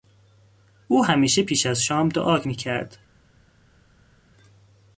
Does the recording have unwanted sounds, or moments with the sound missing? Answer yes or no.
no